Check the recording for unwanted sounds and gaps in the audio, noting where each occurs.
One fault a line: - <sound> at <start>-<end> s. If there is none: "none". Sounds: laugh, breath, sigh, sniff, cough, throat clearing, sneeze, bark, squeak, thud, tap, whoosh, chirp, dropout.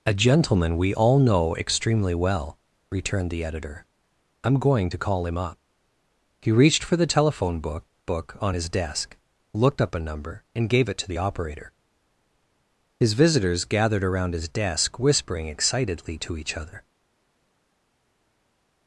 none